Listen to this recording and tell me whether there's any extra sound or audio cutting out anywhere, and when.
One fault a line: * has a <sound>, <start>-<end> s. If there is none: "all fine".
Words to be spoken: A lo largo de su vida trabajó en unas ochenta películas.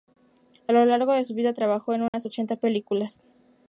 * has a dropout, 2.1-2.1 s